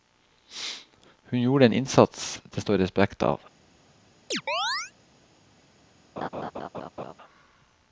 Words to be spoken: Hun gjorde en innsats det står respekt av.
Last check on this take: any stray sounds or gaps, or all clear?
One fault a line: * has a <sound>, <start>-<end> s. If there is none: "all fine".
* has a chirp, 4.3-4.9 s
* has a laugh, 6.2-7.1 s